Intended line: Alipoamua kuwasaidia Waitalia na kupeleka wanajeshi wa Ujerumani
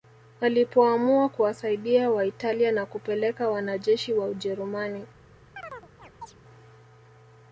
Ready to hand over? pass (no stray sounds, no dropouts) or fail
fail